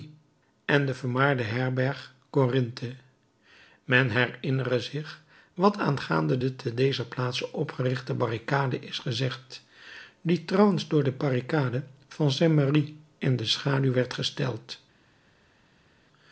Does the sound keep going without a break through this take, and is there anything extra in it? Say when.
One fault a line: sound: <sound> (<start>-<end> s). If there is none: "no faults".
no faults